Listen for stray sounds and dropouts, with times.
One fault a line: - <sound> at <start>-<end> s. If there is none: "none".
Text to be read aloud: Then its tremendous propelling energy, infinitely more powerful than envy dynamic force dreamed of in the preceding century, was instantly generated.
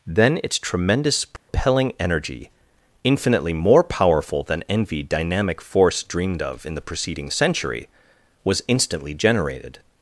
- dropout at 1.4-1.5 s